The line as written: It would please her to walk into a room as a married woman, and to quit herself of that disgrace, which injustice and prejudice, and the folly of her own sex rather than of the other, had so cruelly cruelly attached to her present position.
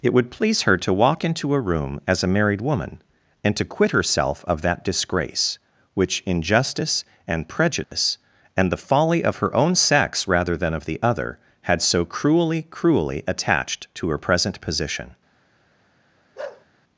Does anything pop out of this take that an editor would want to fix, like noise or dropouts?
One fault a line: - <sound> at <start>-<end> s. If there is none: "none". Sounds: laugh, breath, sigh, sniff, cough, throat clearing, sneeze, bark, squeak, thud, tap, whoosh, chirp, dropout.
- dropout at 7.8-7.9 s
- bark at 16.4-16.7 s